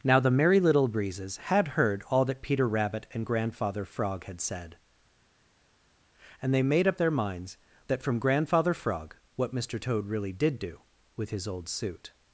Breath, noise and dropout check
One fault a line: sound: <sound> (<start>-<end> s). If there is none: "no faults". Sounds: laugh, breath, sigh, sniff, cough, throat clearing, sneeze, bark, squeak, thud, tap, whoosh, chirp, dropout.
no faults